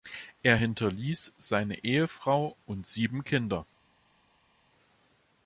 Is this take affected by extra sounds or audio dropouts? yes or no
no